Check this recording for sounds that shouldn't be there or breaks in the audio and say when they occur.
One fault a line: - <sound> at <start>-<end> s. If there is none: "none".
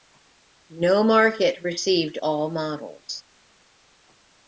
none